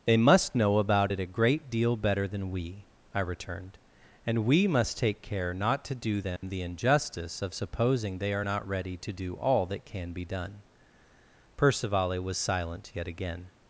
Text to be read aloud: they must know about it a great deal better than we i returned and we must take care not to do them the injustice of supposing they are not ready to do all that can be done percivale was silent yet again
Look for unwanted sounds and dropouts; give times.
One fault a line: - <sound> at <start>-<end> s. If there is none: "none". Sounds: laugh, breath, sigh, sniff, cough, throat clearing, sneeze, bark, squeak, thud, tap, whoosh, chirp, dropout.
- dropout at 6.4-6.4 s